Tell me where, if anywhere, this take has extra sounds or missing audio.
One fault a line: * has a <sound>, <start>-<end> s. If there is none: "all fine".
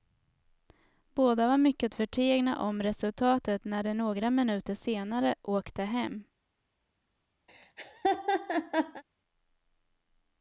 * has a laugh, 7.5-9.0 s